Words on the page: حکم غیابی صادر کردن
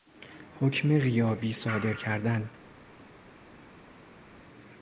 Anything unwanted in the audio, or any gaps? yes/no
no